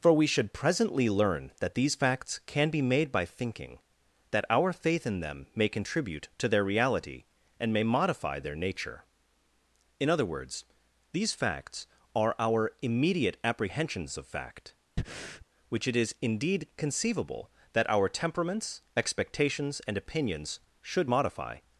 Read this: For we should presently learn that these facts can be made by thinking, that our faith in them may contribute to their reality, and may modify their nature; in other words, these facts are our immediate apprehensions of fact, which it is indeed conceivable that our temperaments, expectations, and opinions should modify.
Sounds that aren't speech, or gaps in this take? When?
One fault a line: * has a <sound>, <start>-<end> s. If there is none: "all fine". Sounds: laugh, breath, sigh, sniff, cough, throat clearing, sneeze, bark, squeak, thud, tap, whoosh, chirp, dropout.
* has a breath, 15.0-15.5 s